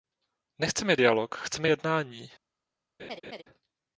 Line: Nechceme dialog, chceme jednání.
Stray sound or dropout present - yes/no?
yes